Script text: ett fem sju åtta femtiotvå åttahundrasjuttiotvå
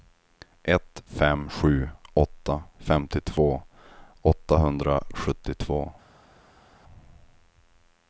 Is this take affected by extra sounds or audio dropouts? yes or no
no